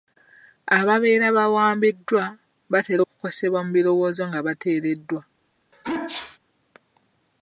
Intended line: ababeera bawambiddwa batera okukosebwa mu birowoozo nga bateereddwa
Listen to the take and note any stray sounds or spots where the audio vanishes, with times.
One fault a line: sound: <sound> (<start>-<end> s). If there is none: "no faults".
sound: sneeze (5.7-6.4 s)